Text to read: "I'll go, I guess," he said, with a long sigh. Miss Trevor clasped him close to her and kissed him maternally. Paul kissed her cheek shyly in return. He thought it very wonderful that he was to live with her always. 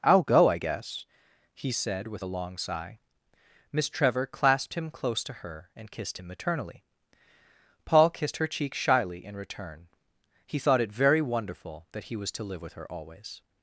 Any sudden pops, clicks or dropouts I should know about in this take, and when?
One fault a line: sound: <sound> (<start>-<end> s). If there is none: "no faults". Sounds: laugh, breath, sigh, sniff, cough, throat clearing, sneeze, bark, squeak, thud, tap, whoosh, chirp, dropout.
no faults